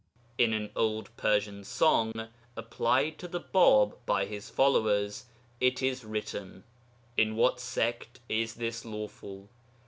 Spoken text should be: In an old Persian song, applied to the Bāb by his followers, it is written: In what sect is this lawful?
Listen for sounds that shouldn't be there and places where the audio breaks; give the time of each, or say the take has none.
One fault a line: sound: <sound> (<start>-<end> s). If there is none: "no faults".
sound: dropout (2.1-2.2 s)